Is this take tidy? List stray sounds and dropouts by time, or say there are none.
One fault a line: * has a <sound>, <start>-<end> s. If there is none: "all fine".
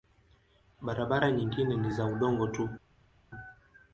all fine